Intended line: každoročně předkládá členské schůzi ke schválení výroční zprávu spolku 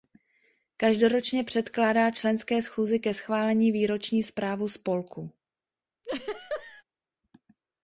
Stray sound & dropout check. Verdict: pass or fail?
fail